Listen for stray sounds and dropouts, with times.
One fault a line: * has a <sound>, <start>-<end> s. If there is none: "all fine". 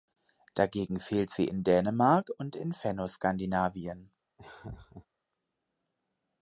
* has a laugh, 4.4-5.1 s